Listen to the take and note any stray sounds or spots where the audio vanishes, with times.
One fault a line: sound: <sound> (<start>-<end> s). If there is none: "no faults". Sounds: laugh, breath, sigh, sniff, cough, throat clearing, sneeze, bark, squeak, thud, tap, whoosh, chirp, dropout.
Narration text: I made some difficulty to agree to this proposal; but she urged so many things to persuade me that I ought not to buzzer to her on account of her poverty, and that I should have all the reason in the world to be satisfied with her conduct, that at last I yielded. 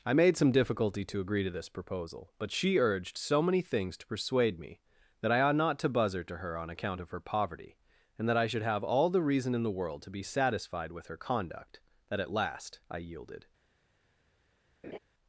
sound: laugh (14.8-15.0 s)